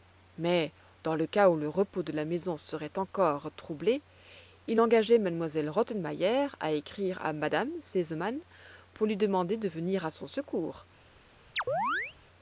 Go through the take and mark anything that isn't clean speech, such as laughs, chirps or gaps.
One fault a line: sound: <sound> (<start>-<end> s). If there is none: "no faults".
sound: chirp (11.6-12.2 s)